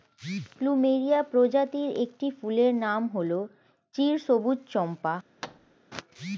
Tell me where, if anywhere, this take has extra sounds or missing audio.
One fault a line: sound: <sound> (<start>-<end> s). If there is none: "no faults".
sound: thud (5.4-5.8 s)